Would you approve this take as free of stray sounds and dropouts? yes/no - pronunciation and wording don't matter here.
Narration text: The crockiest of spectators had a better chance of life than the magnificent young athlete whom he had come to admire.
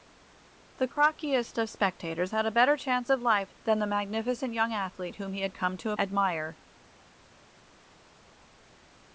yes